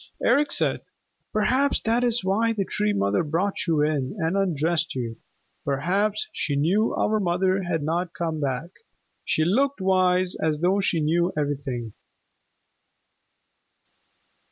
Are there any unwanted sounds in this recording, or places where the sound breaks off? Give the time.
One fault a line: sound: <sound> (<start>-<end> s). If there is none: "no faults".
no faults